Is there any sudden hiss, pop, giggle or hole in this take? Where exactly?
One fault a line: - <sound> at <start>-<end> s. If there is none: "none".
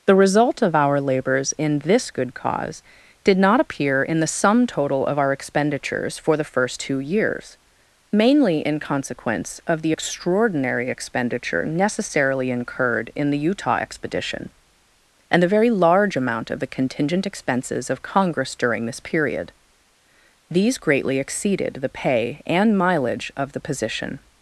none